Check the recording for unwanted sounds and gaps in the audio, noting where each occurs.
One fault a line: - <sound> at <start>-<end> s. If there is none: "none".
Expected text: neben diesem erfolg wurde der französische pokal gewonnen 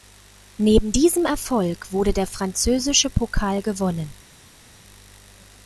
none